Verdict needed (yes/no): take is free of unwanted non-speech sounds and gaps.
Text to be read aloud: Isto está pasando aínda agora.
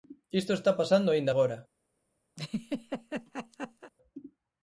no